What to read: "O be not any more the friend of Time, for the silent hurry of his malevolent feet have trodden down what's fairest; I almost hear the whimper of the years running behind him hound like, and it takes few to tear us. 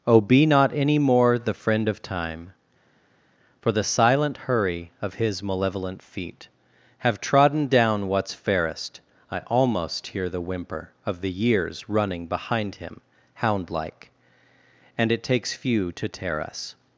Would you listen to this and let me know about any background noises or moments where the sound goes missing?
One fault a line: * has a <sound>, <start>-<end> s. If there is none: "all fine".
all fine